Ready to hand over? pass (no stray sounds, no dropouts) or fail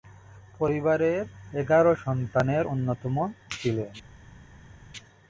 pass